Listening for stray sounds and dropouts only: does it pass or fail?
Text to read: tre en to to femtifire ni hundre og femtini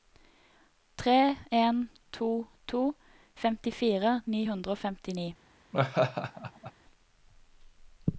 fail